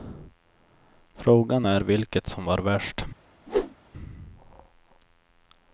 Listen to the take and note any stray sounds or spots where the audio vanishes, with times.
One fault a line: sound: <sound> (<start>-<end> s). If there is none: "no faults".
sound: whoosh (3.5-3.7 s)